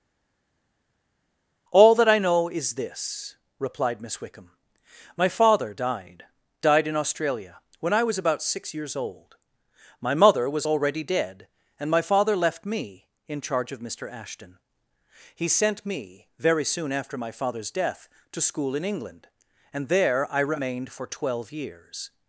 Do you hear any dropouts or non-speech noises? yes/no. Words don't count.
no